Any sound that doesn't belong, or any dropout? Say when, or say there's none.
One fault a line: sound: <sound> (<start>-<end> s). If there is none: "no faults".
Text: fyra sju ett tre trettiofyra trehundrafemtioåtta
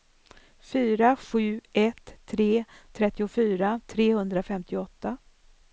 no faults